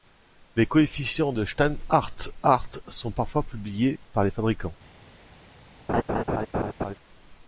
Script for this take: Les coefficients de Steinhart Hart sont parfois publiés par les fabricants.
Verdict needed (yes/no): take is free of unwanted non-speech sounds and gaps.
no